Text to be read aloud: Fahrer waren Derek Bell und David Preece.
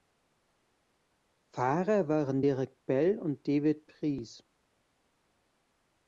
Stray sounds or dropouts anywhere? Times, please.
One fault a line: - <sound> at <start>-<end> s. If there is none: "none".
none